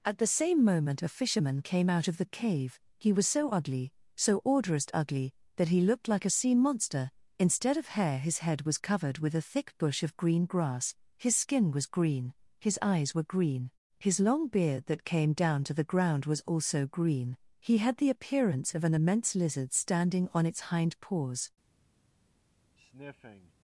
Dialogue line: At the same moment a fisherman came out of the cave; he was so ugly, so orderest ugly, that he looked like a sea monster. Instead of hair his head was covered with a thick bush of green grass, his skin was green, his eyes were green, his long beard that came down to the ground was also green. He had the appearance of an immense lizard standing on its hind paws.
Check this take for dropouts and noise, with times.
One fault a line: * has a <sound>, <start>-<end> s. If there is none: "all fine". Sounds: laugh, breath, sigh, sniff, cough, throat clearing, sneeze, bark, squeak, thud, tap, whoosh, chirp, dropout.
* has a sniff, 22.8-23.5 s